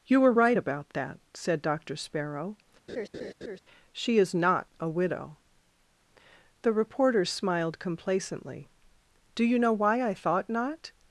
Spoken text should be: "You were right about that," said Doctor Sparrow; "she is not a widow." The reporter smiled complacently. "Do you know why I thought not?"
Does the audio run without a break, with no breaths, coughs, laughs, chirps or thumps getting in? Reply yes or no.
no